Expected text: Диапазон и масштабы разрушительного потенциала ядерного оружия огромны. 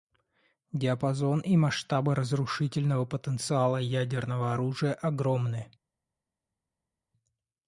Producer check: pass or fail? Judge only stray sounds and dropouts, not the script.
pass